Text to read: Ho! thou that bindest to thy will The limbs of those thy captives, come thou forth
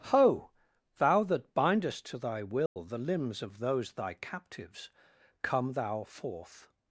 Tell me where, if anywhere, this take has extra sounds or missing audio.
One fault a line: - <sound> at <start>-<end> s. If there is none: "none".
- dropout at 2.7-2.8 s